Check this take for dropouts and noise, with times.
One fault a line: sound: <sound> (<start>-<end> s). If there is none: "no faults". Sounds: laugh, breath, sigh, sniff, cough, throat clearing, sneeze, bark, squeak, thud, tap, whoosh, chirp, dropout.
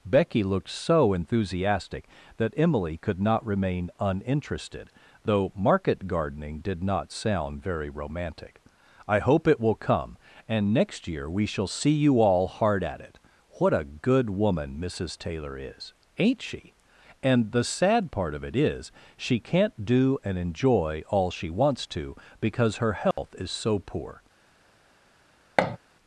sound: dropout (23.1-23.2 s)
sound: thud (25.6-25.8 s)